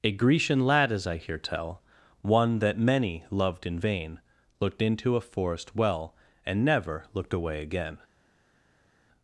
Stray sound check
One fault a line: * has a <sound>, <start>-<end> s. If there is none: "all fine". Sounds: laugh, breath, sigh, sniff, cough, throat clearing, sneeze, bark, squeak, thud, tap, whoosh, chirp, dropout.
all fine